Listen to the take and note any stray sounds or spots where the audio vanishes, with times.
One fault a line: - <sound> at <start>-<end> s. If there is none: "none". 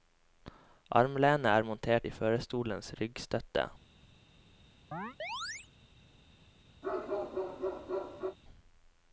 - chirp at 4.9-5.7 s
- bark at 6.8-8.4 s